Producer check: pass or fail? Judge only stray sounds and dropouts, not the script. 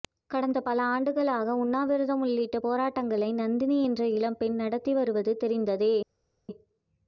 pass